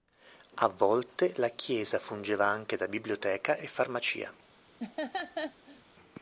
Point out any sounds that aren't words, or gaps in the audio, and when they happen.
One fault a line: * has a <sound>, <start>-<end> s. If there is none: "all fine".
* has a laugh, 4.8-5.8 s